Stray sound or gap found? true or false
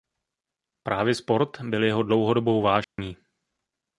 true